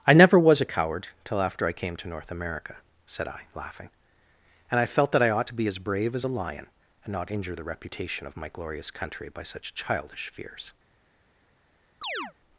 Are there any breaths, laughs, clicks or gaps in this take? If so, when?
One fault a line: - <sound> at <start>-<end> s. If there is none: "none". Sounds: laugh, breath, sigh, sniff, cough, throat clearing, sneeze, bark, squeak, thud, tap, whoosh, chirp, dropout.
- chirp at 12.0-12.3 s